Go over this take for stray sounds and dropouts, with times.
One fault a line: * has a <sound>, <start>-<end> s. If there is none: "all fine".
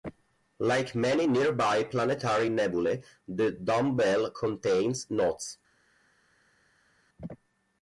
all fine